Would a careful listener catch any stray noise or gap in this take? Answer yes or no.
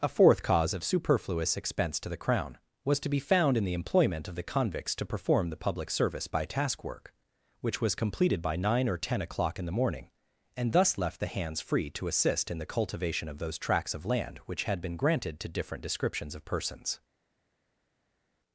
no